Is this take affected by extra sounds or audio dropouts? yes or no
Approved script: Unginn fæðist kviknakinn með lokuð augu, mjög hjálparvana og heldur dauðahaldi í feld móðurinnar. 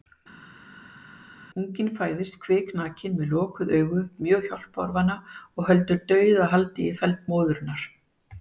no